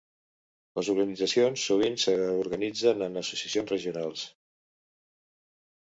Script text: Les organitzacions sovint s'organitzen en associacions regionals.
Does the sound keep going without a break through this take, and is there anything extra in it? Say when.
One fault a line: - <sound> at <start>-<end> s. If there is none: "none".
none